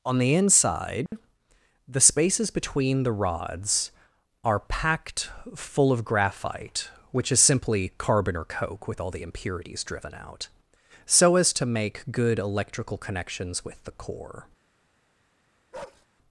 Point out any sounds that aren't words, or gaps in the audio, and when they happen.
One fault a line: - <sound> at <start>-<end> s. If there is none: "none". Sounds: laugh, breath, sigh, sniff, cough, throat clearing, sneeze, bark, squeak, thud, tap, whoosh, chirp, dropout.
- dropout at 1.1-1.1 s
- bark at 15.7-16.1 s